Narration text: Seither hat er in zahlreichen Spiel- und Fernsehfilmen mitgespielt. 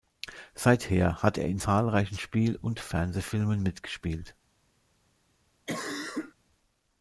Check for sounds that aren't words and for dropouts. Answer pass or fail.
fail